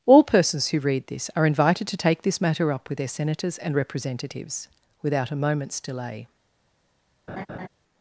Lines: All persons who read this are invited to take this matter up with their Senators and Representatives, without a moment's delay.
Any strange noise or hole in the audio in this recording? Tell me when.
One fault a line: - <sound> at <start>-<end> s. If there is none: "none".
- laugh at 7.3-7.7 s